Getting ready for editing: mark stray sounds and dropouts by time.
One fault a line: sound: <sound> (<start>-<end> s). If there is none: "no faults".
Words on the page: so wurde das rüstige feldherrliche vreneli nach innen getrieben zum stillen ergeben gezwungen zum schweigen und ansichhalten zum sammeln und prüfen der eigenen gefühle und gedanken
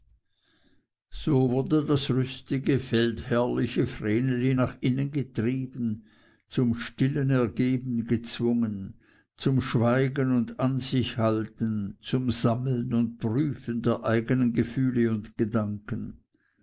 no faults